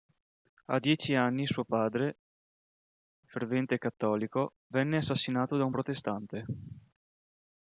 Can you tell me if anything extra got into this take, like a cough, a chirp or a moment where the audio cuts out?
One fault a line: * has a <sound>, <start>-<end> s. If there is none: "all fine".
all fine